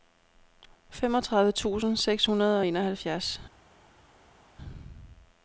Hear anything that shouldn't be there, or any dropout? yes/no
no